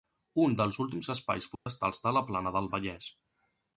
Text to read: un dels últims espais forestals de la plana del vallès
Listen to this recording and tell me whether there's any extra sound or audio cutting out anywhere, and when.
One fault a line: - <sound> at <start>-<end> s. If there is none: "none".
- dropout at 1.5-1.7 s